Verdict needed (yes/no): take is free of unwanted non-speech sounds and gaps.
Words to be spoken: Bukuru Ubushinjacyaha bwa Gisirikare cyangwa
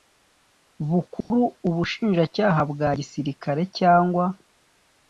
no